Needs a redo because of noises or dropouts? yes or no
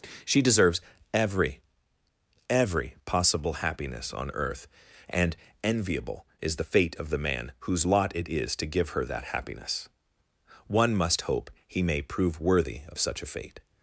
no